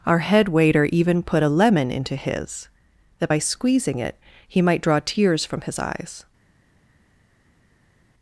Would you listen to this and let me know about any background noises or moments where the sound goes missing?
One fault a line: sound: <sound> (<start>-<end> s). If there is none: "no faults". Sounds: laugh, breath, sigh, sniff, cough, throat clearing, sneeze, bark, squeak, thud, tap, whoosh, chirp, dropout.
no faults